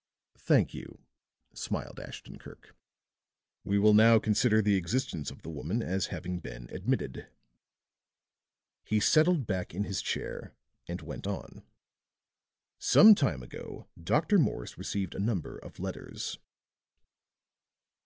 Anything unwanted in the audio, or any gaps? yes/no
no